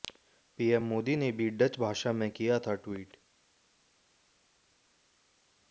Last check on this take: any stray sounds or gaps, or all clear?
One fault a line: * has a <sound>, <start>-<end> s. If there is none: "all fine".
all fine